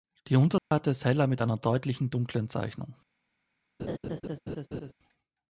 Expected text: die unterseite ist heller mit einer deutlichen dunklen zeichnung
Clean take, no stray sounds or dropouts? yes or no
no